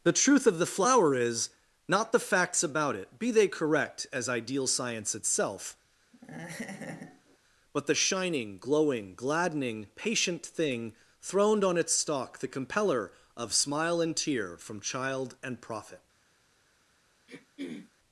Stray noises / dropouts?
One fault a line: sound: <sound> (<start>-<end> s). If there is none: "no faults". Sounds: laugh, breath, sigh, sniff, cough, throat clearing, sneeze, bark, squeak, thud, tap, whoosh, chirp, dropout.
sound: laugh (6.1-7.4 s)
sound: throat clearing (17.3-17.9 s)